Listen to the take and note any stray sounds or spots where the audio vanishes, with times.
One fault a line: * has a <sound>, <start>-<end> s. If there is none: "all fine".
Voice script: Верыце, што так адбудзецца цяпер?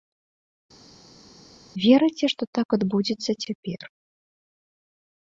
all fine